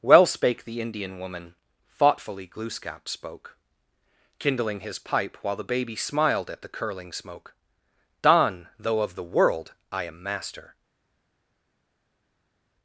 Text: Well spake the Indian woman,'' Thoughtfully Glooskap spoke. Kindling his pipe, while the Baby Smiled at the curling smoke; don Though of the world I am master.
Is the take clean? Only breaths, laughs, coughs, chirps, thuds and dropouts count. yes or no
yes